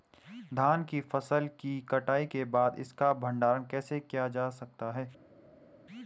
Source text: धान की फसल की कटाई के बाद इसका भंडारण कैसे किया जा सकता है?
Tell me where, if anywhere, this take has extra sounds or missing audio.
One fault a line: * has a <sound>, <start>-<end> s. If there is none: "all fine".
all fine